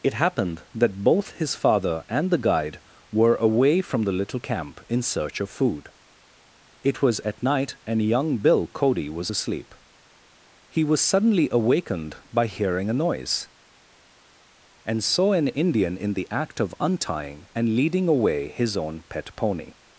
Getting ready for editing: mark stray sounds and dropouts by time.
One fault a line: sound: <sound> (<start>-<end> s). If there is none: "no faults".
no faults